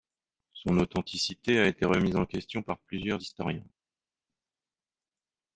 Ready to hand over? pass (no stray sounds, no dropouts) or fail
pass